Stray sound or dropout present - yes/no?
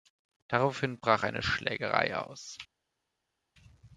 no